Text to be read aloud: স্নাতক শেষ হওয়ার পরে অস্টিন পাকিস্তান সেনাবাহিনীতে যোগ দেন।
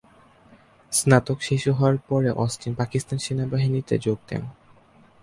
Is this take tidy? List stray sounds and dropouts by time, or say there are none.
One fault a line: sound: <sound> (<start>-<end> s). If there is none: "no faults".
no faults